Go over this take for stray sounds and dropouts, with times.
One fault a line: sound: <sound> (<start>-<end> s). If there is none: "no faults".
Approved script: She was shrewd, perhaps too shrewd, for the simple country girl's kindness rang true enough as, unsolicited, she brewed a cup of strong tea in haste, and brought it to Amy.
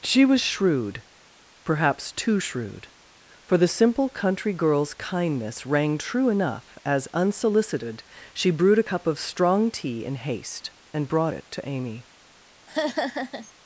sound: laugh (12.7-13.5 s)